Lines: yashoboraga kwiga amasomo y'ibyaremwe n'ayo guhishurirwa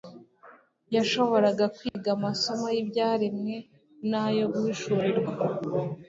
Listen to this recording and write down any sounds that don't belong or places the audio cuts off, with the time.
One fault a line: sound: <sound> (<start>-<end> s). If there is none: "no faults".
sound: dropout (1.9-1.9 s)